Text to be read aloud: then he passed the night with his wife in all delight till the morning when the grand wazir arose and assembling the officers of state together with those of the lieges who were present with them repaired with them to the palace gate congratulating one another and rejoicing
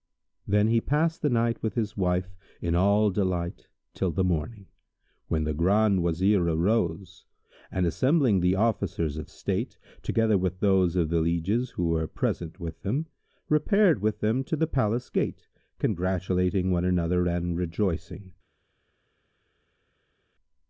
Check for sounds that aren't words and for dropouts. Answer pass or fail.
pass